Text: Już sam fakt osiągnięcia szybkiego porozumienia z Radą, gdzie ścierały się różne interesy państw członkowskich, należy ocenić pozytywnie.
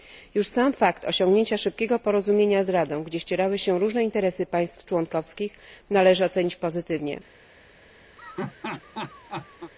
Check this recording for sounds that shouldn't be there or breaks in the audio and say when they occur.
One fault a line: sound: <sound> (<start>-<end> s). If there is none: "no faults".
sound: laugh (8.2-9.7 s)